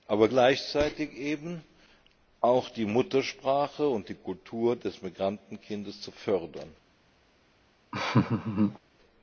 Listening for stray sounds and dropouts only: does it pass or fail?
fail